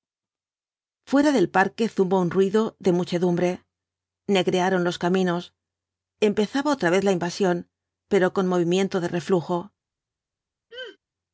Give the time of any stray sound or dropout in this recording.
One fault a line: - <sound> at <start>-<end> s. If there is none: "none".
- throat clearing at 10.7-11.0 s